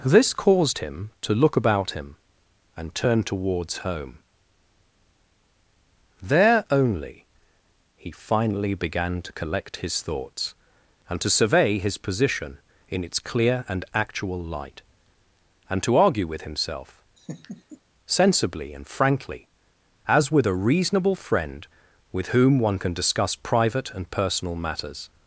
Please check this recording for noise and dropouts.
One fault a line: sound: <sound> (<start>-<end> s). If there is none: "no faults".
sound: laugh (17.2-17.8 s)